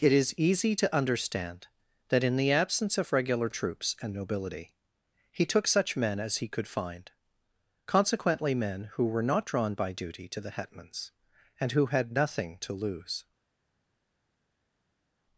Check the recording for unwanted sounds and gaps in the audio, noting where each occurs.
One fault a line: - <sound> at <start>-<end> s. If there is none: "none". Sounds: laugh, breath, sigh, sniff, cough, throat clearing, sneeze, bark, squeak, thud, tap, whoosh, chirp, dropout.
none